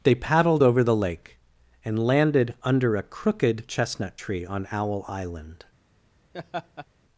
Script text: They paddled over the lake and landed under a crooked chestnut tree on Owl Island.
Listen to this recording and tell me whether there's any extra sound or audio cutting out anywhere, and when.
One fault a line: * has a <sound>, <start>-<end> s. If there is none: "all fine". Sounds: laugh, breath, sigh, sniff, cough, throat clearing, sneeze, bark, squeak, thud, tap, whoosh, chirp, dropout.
* has a laugh, 6.3-6.9 s